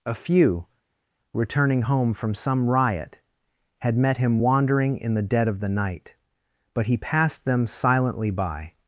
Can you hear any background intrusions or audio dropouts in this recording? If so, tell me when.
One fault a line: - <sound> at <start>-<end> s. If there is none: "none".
none